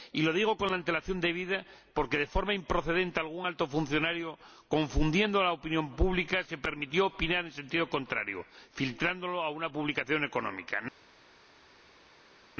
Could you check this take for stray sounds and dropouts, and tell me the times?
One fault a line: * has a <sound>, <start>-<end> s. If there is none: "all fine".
all fine